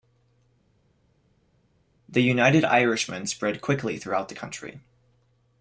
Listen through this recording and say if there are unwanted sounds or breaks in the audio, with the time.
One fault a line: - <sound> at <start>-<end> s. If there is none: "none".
none